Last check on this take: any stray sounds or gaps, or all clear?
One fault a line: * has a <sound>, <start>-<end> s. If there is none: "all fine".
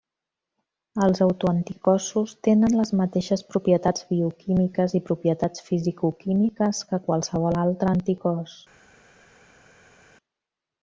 all fine